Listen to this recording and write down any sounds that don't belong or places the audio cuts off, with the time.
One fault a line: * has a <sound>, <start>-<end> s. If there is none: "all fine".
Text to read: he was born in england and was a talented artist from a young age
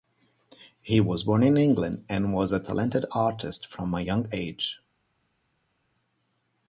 all fine